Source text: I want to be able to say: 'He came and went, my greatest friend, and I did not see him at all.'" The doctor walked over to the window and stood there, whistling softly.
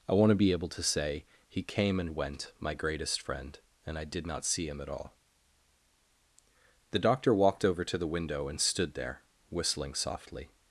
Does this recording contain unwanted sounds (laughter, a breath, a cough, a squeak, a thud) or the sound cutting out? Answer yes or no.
no